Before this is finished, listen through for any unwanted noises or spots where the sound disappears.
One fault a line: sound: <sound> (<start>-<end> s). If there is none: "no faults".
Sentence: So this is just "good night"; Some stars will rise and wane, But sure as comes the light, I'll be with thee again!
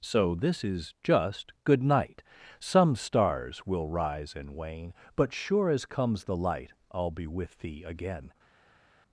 no faults